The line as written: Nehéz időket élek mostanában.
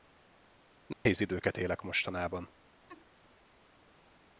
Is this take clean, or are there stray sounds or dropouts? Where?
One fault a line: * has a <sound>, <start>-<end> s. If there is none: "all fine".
* has a dropout, 0.9-1.1 s
* has a laugh, 2.9-3.1 s